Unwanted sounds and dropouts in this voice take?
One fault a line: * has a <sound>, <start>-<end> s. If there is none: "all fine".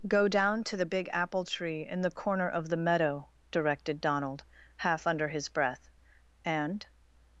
all fine